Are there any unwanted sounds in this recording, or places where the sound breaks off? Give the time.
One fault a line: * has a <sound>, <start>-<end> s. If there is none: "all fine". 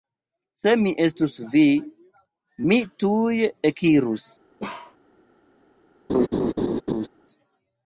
* has a bark, 4.6-5.0 s
* has a laugh, 6.1-7.1 s